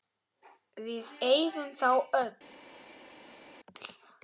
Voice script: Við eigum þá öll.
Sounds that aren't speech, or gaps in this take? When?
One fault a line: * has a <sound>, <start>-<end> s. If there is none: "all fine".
all fine